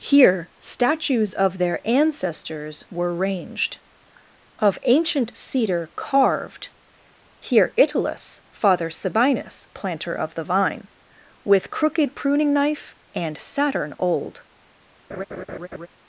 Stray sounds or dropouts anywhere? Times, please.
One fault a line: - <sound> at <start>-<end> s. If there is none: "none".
- laugh at 15.1-15.9 s